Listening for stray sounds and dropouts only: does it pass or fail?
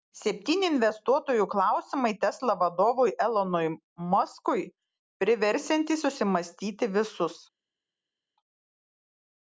pass